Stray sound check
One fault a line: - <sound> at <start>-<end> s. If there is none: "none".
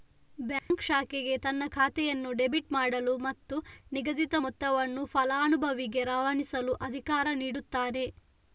- dropout at 0.6-0.7 s